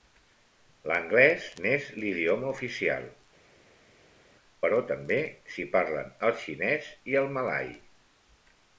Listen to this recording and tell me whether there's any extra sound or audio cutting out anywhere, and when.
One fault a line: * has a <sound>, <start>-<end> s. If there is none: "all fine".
all fine